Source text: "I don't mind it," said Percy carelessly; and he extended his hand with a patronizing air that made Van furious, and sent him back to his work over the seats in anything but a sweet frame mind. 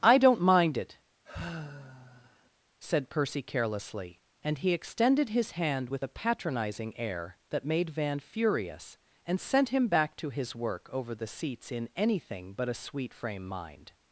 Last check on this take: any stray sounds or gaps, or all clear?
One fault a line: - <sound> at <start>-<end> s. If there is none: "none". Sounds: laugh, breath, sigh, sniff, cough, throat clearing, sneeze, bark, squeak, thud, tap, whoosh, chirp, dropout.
- sigh at 1.2-2.5 s